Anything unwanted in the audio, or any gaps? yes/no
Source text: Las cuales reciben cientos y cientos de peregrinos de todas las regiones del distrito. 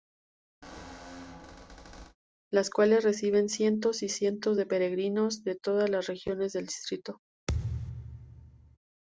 yes